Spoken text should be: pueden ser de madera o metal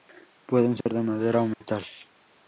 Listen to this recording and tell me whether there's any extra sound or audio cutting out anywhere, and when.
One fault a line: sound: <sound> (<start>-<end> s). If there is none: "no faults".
sound: dropout (0.8-0.9 s)
sound: dropout (1.5-1.6 s)